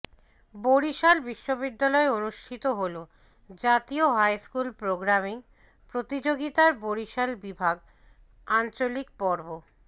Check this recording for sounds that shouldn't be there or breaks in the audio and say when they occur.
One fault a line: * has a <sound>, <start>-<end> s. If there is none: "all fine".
all fine